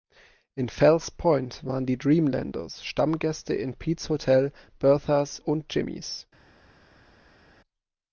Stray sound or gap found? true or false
false